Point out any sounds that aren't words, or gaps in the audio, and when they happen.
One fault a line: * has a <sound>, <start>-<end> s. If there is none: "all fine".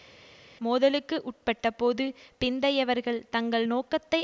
all fine